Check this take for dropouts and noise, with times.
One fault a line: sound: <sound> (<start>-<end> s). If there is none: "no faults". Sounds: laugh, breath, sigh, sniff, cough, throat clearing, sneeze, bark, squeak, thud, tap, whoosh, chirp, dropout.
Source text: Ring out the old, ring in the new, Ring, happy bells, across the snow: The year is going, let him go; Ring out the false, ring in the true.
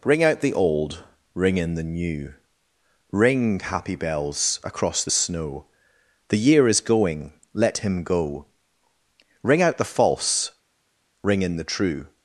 no faults